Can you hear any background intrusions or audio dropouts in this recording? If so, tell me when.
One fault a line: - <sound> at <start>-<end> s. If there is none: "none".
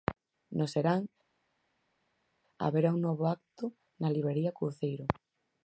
none